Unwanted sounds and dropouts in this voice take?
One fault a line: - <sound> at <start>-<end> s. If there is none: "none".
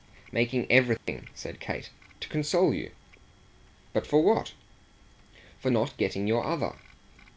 - dropout at 1.0-1.1 s